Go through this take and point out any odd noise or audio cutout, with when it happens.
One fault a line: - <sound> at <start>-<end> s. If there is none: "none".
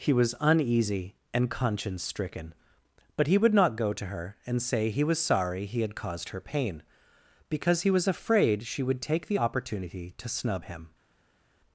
none